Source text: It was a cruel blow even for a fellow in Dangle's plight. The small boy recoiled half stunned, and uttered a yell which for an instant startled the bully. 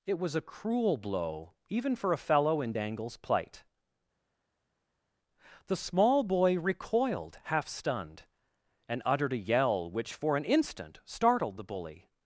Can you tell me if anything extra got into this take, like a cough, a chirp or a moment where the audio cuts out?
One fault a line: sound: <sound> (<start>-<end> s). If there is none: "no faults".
no faults